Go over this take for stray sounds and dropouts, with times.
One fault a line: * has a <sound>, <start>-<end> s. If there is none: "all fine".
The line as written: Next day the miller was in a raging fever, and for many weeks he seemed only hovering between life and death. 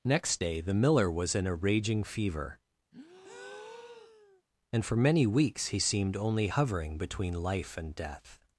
* has a breath, 2.9-4.4 s